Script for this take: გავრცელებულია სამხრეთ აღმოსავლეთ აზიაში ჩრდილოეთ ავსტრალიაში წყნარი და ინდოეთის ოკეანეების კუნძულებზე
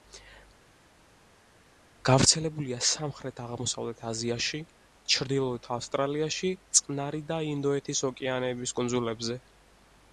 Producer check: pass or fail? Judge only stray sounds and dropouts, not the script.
pass